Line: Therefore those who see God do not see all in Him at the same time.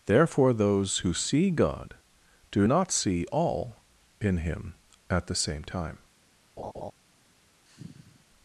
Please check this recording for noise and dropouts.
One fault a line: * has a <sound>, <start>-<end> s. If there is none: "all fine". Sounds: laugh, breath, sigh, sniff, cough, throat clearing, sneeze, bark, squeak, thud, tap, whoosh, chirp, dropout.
* has a laugh, 6.6-6.9 s
* has a sigh, 7.6-8.3 s